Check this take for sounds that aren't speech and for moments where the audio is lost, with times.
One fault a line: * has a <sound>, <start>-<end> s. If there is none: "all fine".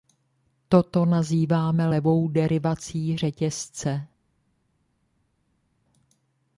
all fine